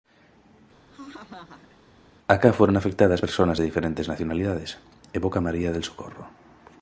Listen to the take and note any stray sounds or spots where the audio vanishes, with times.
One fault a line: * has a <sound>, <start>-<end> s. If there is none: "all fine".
* has a laugh, 0.9-1.8 s